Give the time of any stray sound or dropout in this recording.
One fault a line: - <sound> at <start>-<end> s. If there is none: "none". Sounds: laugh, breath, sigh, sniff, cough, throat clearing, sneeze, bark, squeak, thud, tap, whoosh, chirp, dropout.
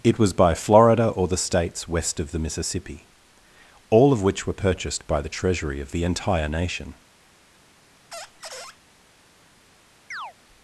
- squeak at 8.1-8.8 s
- chirp at 10.1-10.3 s